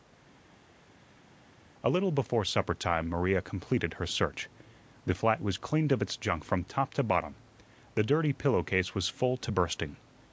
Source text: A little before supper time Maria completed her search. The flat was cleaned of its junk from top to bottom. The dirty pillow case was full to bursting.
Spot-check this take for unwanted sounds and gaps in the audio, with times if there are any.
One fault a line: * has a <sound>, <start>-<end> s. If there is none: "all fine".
all fine